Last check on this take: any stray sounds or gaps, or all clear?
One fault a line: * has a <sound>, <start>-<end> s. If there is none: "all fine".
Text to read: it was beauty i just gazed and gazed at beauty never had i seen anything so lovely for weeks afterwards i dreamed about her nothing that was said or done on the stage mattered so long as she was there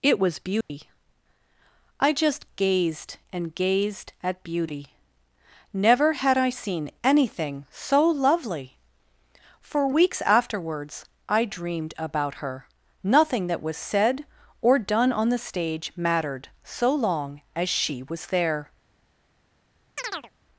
* has a dropout, 0.6-0.7 s
* has a chirp, 20.0-20.3 s